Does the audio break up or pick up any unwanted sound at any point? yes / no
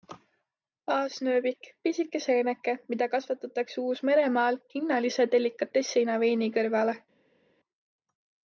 no